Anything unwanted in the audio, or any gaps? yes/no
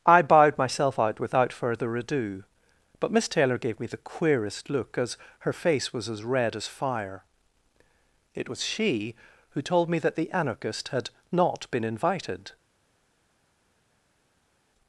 no